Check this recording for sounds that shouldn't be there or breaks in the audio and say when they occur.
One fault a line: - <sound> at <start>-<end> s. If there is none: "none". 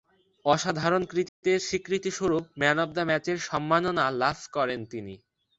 - dropout at 1.3-1.4 s